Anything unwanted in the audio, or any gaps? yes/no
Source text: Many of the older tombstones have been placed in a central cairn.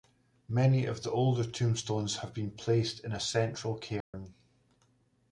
yes